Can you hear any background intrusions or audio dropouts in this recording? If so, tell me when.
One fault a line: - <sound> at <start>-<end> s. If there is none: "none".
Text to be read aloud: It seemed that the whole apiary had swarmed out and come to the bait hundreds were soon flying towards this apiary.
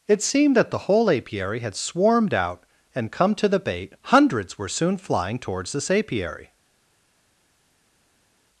none